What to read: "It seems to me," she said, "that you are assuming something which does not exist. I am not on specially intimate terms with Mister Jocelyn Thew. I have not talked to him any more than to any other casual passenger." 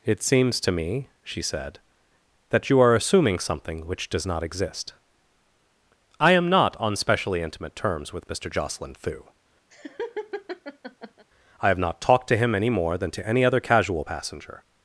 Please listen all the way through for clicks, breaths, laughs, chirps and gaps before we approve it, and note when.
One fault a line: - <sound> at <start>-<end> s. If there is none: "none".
- laugh at 9.7-11.3 s